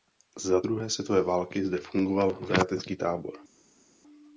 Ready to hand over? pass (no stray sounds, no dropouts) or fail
pass